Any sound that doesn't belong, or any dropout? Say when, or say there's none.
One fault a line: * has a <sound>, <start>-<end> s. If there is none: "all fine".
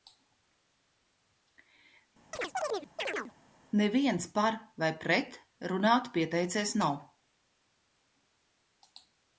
* has a chirp, 2.3-3.3 s